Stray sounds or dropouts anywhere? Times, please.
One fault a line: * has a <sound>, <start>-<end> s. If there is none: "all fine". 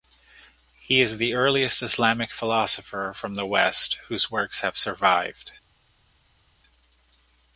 all fine